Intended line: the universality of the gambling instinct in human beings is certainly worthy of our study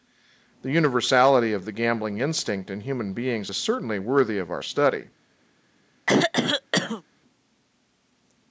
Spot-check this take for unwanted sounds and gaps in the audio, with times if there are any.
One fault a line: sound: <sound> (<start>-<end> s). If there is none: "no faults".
sound: throat clearing (6.1-7.0 s)